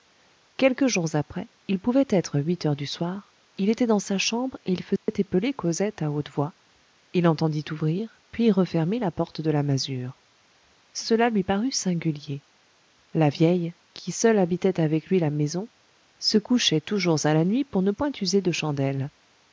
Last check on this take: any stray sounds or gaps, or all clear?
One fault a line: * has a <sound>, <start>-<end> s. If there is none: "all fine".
* has a dropout, 5.0-5.1 s